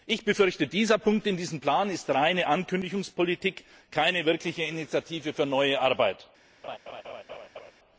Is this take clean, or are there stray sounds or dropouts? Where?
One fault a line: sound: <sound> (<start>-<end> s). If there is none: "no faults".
sound: laugh (6.6-7.7 s)